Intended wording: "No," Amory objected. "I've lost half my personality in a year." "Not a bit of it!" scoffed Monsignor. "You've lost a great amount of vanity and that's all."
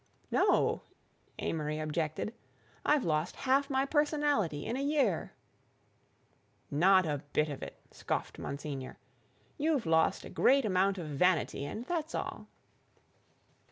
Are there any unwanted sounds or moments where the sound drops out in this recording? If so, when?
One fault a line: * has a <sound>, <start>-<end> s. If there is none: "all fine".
all fine